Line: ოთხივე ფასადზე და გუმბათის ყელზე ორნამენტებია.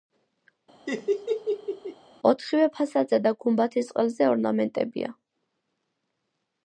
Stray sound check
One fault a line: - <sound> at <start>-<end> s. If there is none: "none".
- laugh at 0.9-2.0 s